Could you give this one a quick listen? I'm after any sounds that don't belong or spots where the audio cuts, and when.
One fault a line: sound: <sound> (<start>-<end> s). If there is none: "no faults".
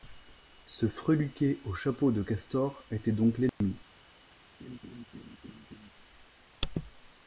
sound: dropout (3.5-3.6 s)
sound: laugh (4.6-5.9 s)